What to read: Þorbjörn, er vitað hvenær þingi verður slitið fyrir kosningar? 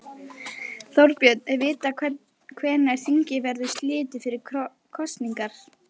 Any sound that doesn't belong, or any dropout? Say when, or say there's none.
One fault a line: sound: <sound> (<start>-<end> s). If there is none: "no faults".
no faults